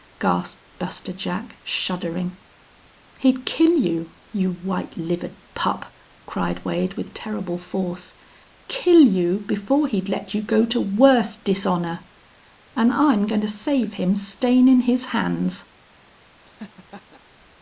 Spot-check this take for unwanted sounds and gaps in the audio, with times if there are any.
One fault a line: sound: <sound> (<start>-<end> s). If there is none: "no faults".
sound: laugh (16.4-17.2 s)